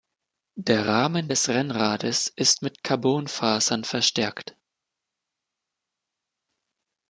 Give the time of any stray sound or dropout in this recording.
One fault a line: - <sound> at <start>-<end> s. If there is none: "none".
none